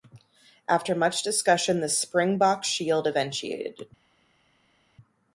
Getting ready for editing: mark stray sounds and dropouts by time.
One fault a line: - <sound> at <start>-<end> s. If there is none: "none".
none